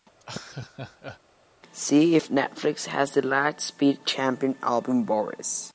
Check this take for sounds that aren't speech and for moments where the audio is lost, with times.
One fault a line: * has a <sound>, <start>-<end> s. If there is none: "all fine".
* has a laugh, 0.2-1.2 s